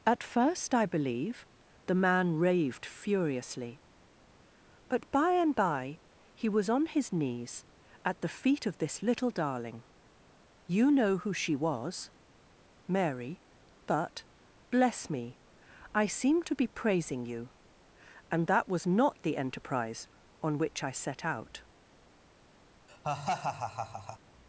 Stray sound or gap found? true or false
true